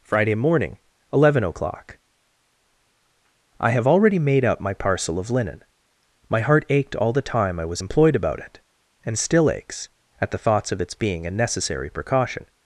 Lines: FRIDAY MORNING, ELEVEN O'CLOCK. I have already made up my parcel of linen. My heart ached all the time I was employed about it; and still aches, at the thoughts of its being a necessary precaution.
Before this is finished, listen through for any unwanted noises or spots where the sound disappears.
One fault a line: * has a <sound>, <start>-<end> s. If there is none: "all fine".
all fine